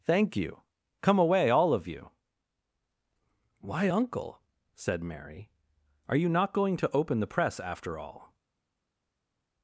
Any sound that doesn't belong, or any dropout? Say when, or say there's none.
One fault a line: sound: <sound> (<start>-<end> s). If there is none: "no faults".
no faults